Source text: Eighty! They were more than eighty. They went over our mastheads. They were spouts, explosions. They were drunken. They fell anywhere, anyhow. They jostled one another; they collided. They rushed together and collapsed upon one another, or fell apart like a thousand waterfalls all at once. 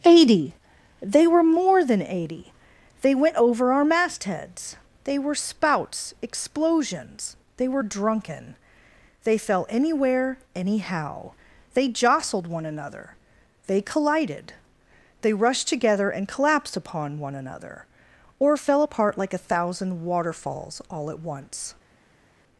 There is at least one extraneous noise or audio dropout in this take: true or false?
false